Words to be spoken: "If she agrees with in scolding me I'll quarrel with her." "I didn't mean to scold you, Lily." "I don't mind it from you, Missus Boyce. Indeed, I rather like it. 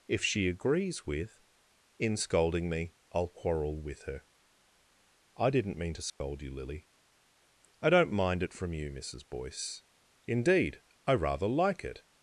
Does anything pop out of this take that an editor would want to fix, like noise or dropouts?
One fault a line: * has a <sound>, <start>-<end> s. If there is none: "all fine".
* has a dropout, 6.1-6.2 s